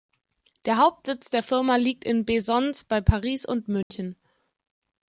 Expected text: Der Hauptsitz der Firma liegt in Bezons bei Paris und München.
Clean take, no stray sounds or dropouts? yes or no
no